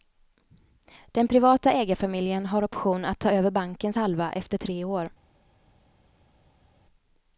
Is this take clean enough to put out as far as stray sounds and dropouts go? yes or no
yes